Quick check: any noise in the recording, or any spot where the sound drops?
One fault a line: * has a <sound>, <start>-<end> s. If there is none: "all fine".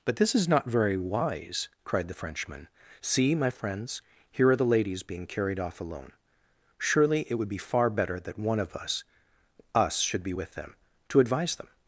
all fine